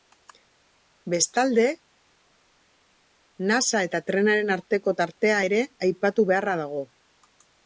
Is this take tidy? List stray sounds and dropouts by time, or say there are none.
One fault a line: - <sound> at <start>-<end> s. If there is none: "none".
none